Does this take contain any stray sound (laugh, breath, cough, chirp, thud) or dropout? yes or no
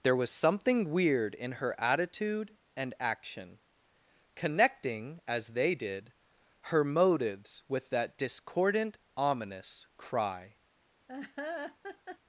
yes